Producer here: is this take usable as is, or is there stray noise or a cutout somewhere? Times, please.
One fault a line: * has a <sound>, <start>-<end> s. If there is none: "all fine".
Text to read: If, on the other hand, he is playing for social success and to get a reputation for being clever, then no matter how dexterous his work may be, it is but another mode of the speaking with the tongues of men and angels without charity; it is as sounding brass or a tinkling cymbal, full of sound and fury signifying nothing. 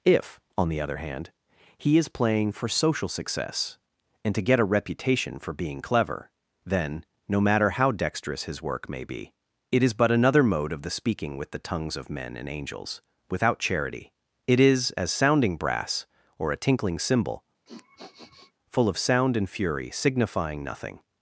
* has a sniff, 17.7-18.5 s